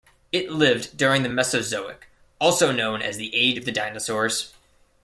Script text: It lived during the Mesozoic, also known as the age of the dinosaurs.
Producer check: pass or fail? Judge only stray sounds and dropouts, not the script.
pass